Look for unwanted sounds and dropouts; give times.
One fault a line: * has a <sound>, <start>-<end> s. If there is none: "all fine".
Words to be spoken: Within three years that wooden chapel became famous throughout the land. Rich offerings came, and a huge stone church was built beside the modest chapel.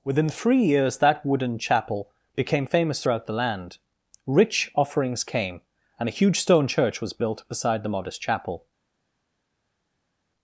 all fine